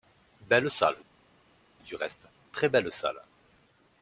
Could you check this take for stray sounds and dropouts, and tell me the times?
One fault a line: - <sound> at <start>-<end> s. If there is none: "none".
none